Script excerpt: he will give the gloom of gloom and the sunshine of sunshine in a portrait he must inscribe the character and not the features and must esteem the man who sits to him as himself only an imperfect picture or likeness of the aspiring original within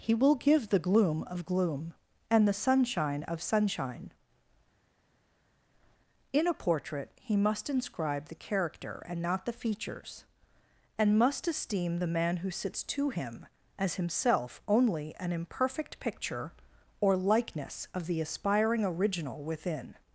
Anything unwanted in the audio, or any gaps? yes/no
no